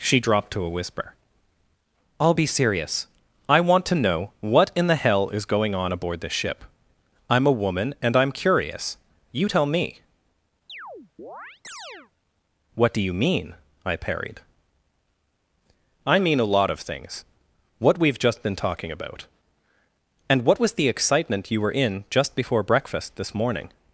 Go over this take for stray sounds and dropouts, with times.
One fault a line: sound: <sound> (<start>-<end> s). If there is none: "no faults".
sound: chirp (10.7-12.1 s)